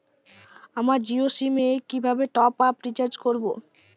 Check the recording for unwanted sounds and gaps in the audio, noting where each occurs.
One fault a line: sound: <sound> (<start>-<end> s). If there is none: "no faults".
no faults